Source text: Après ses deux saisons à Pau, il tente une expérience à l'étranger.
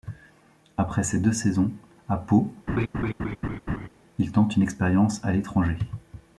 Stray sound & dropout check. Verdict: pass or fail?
fail